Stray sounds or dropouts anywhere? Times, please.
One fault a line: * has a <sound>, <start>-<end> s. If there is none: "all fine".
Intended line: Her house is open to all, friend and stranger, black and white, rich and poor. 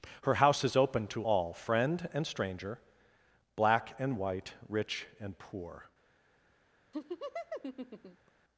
* has a laugh, 6.9-8.3 s